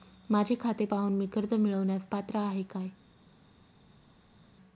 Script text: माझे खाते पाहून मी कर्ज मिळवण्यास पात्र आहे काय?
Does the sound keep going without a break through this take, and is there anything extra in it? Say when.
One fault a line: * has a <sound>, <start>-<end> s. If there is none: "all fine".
all fine